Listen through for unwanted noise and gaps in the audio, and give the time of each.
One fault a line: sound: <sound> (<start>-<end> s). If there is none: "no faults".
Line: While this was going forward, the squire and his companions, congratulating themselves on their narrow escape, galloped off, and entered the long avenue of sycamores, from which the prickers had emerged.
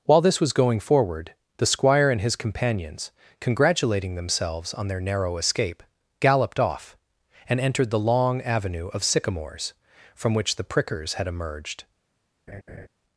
sound: laugh (12.5-12.9 s)